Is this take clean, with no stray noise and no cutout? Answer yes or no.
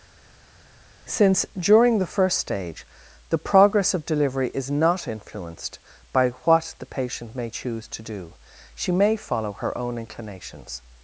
yes